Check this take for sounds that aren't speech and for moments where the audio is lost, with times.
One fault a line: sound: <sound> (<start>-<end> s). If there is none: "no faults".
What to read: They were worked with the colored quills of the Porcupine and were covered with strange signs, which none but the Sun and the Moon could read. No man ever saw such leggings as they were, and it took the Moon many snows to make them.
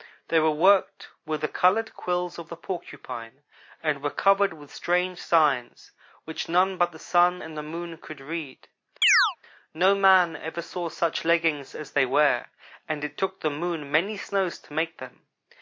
sound: chirp (9.0-9.4 s)